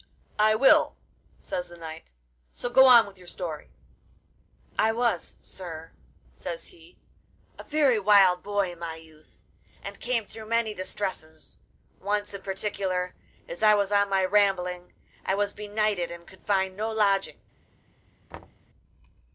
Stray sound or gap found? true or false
true